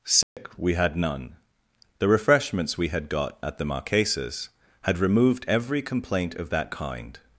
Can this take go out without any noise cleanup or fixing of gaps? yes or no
no